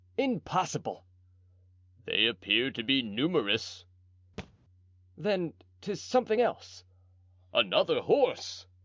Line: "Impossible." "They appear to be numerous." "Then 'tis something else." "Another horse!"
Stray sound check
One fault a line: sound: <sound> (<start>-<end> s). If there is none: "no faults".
sound: thud (4.4-4.5 s)